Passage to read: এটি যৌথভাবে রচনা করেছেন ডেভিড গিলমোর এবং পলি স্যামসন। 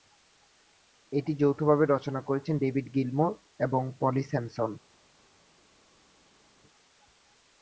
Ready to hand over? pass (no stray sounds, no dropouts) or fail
pass